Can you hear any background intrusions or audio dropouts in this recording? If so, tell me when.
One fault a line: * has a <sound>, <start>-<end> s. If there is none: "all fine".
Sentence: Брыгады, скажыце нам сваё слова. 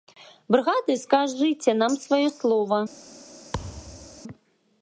* has a thud, 3.5-4.2 s